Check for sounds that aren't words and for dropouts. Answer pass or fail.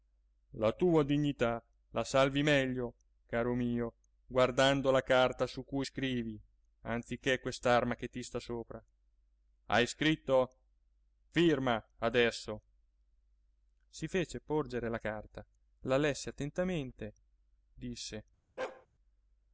fail